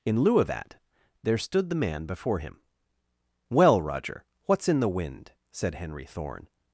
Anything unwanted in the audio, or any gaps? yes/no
no